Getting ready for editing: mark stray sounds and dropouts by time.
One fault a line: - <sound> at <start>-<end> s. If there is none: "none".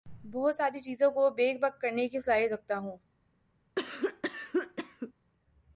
- cough at 3.8-5.1 s